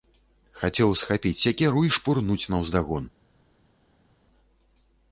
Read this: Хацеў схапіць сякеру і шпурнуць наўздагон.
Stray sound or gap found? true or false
false